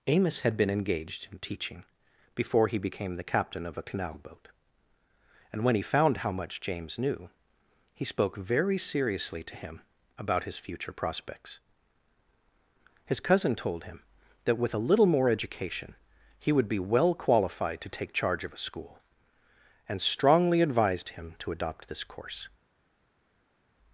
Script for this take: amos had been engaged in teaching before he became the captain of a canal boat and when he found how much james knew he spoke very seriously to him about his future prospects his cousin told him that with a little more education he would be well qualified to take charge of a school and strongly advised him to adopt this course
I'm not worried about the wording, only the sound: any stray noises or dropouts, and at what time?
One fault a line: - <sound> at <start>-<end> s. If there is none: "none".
none